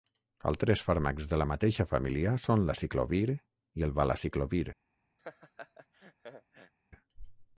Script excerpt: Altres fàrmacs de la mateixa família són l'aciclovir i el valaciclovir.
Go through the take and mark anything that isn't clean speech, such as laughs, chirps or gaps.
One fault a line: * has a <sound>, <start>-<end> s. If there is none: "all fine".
* has a laugh, 5.2-6.7 s